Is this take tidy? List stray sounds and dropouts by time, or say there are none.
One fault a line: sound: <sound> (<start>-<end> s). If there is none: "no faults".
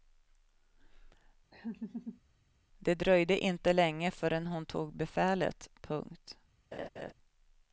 sound: laugh (1.5-2.2 s)
sound: laugh (6.7-7.1 s)